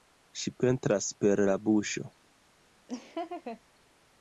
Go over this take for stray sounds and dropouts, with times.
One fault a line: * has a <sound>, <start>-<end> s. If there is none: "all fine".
* has a laugh, 2.9-3.6 s